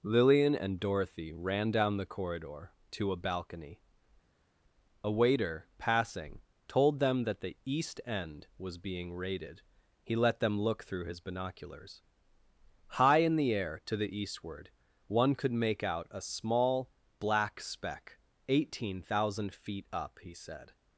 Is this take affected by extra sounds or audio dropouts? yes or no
no